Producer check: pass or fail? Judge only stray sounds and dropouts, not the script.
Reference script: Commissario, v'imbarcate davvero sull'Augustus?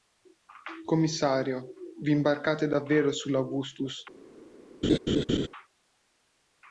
fail